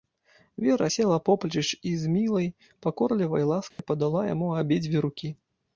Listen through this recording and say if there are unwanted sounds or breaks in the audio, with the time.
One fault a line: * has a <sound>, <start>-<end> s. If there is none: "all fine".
* has a dropout, 3.7-3.8 s